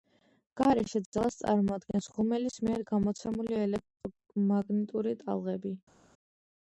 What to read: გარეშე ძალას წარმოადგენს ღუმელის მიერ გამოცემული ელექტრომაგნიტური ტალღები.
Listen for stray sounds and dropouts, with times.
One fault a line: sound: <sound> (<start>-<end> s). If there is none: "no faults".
no faults